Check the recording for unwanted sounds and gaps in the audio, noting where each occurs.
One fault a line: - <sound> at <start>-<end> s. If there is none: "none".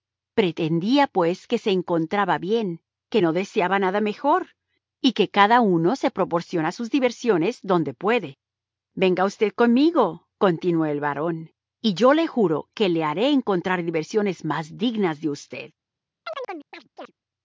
- chirp at 16.2-17.1 s